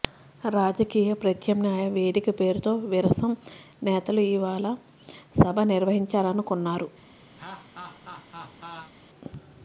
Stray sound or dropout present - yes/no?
yes